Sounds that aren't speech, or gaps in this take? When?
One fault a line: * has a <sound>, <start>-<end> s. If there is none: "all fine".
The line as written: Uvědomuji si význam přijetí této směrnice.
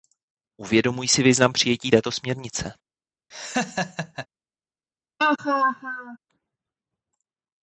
* has a laugh, 3.3-4.3 s
* has a laugh, 5.2-6.2 s